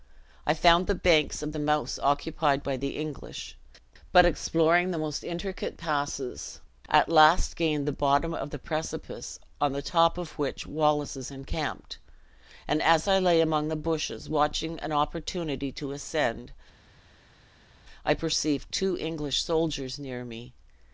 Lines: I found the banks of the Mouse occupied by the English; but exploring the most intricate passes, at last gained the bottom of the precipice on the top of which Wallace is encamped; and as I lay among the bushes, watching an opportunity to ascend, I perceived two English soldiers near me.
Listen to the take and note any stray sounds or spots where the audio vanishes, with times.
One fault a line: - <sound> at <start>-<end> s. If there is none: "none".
none